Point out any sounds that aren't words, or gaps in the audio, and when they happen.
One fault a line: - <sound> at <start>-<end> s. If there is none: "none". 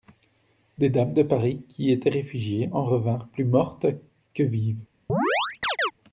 - chirp at 5.1-5.9 s